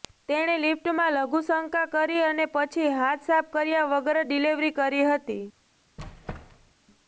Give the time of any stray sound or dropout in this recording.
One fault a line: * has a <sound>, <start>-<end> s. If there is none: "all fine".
* has a squeak, 6.0-6.7 s